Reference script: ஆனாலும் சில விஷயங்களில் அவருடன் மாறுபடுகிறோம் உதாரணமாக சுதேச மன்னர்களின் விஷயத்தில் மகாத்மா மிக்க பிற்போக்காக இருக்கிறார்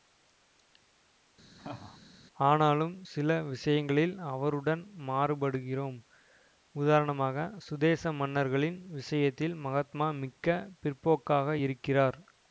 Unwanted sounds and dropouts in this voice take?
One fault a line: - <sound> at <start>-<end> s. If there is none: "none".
- laugh at 1.6-2.0 s